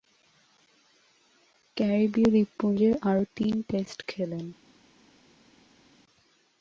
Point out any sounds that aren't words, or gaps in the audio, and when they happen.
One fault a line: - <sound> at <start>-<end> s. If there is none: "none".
none